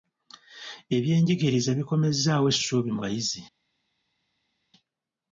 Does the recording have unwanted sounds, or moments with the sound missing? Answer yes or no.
no